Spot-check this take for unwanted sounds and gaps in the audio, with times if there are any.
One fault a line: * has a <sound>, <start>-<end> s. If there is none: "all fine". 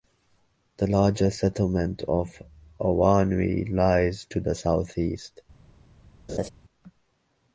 * has a laugh, 6.3-6.5 s